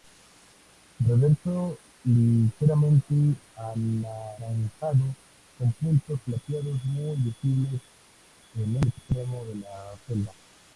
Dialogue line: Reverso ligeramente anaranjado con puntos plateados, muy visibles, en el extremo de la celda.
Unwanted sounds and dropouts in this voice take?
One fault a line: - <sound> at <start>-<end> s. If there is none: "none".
none